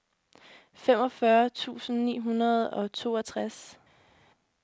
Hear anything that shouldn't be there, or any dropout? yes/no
no